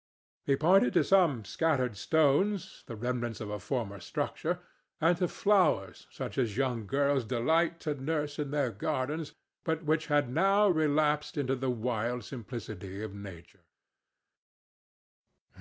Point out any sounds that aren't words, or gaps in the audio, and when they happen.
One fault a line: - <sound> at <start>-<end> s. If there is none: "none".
none